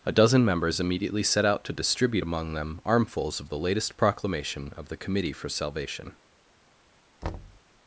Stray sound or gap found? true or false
true